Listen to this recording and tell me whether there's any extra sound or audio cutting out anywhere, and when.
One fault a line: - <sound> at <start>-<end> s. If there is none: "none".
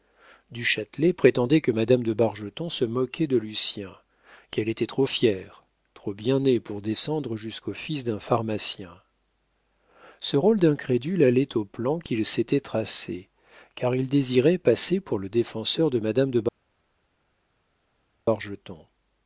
none